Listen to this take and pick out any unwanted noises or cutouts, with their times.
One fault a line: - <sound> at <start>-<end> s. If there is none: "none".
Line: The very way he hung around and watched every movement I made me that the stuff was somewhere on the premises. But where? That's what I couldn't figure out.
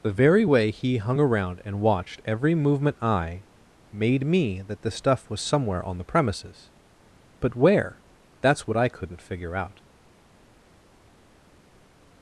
none